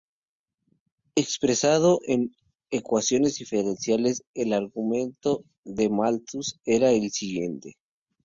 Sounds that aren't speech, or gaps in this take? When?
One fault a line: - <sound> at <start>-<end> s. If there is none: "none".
none